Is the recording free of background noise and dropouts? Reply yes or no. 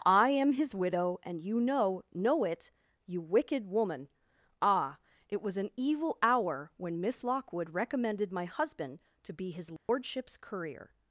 no